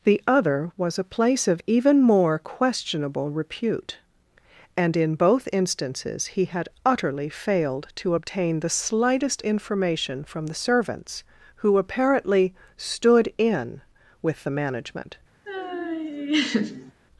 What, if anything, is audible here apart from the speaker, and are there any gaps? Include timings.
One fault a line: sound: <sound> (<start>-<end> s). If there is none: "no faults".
sound: laugh (15.5-16.9 s)